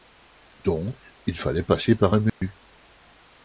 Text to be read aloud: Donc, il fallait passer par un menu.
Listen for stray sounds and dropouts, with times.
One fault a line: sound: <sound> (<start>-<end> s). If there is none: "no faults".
sound: dropout (2.3-2.4 s)